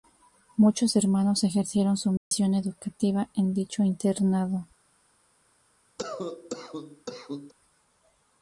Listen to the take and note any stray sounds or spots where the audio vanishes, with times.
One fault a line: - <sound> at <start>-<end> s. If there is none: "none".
- dropout at 2.2-2.3 s
- cough at 6.0-7.5 s